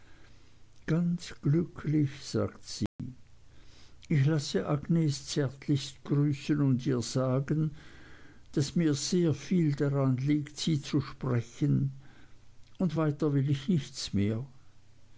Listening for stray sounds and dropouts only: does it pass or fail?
fail